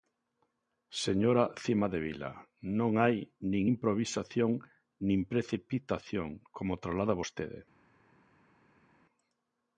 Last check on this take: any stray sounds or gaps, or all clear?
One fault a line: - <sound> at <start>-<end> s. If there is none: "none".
none